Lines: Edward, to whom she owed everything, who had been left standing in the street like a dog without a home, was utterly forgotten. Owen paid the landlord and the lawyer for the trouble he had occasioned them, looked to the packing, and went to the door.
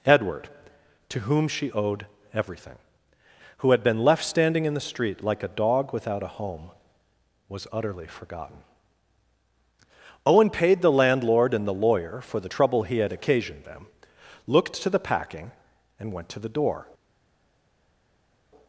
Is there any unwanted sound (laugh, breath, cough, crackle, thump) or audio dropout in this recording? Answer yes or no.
no